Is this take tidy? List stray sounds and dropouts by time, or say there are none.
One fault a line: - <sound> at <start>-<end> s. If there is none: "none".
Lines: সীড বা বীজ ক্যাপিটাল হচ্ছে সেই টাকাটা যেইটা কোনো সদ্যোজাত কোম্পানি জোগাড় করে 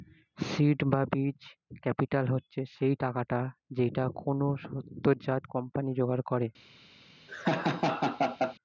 - laugh at 7.3-8.6 s